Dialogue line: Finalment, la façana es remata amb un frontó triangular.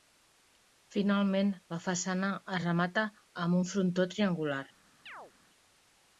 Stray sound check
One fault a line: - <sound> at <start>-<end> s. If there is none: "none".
- chirp at 5.1-5.3 s